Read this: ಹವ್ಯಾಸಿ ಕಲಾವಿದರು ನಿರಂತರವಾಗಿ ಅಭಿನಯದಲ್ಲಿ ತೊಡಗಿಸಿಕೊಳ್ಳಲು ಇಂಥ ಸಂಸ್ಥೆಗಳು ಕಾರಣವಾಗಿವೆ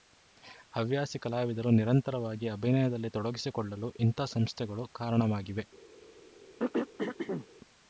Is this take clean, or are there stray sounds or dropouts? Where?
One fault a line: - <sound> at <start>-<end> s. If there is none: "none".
- throat clearing at 6.6-7.5 s